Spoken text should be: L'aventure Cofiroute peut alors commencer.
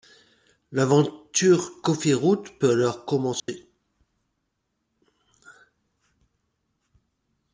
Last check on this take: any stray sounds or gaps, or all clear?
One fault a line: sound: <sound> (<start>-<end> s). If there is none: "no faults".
sound: dropout (3.4-3.5 s)